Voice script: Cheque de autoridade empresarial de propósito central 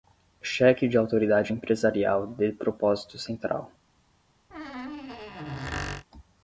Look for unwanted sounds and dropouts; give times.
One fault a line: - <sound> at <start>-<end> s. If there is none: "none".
- squeak at 4.5-6.1 s